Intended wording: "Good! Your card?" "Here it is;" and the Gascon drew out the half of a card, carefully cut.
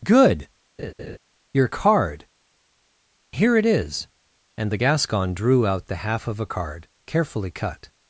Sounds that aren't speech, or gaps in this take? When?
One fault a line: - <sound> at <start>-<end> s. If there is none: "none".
- laugh at 0.8-1.2 s